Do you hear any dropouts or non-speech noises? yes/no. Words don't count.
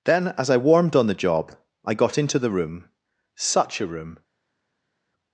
no